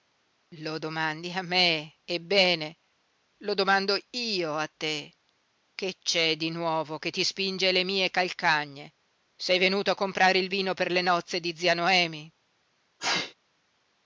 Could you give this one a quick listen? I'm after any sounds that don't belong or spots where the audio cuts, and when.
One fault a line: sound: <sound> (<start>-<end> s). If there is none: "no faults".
sound: sneeze (13.0-13.3 s)